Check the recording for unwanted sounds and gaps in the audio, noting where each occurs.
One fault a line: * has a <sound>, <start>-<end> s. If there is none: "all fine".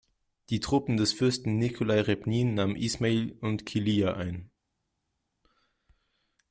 all fine